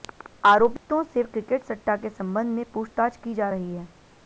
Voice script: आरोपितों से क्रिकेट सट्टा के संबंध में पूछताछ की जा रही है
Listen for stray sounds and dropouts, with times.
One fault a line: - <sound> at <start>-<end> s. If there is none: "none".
- dropout at 0.8-0.9 s